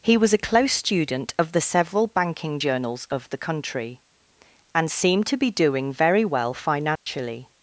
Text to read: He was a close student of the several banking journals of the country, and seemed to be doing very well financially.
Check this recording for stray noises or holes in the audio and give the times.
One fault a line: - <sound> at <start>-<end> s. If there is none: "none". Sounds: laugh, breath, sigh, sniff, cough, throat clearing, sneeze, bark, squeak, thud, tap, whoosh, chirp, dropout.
- dropout at 7.0-7.1 s